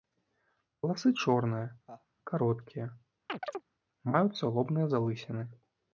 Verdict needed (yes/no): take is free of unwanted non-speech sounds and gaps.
no